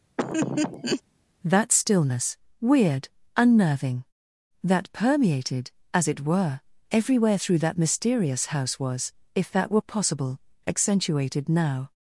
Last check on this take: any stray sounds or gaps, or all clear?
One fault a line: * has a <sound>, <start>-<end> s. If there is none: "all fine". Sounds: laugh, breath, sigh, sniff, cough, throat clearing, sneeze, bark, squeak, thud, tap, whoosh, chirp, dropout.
* has a laugh, 0.2-1.0 s